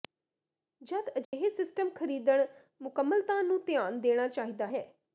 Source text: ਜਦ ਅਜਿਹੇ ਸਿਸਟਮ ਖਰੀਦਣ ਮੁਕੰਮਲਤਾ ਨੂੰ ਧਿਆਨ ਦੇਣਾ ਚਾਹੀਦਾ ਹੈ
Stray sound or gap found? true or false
true